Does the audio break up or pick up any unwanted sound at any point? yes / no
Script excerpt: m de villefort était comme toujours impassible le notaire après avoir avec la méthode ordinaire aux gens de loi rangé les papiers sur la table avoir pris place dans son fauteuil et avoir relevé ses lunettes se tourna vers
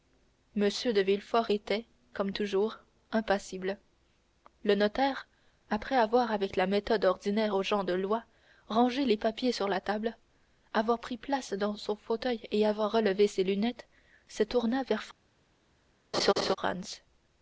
yes